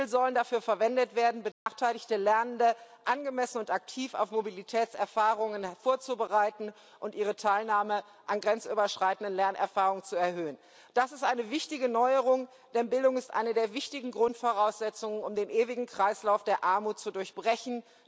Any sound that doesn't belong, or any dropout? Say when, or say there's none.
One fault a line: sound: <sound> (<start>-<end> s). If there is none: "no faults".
sound: dropout (1.5-1.7 s)